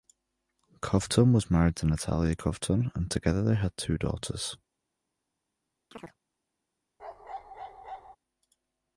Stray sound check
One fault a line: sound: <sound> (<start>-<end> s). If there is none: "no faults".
sound: chirp (5.9-6.2 s)
sound: bark (7.0-8.2 s)